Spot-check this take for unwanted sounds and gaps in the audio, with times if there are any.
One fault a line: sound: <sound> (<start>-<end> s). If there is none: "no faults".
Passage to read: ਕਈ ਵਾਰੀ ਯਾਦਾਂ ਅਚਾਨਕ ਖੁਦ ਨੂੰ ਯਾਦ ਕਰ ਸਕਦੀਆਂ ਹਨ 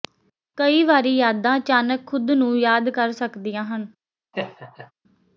sound: laugh (4.3-4.9 s)